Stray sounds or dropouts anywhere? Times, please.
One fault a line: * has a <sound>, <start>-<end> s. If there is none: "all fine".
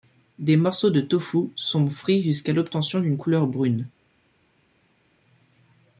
all fine